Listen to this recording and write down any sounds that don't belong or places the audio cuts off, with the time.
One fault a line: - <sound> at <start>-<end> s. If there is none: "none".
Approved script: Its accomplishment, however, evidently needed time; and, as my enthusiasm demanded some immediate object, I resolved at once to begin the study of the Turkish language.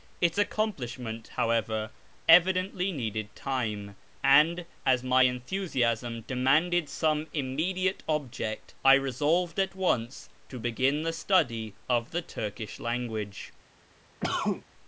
- cough at 14.2-14.6 s